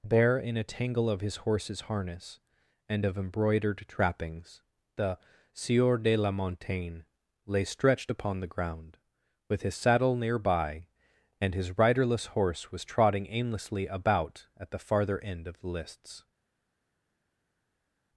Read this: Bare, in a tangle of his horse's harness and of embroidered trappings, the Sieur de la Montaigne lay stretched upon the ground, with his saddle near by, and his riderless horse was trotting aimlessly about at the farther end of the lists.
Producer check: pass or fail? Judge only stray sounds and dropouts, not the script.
pass